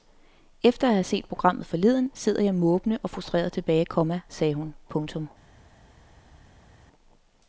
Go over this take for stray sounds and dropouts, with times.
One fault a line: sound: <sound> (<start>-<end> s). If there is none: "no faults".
no faults